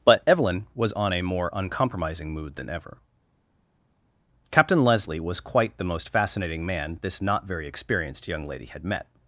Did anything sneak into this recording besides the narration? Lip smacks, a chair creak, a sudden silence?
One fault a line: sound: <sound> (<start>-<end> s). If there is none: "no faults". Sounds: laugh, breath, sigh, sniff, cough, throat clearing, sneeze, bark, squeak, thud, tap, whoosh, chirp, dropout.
no faults